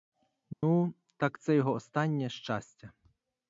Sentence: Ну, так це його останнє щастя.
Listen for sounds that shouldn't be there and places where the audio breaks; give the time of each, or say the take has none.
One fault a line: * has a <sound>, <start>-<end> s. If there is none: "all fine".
* has a dropout, 0.5-0.6 s